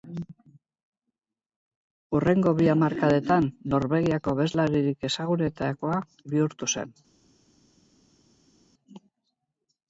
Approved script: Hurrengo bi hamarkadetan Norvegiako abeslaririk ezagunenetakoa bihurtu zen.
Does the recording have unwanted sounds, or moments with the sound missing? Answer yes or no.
no